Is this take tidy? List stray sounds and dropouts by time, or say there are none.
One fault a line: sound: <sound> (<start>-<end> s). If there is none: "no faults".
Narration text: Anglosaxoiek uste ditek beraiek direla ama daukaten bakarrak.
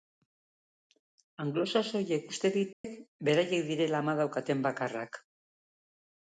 sound: dropout (2.7-2.8 s)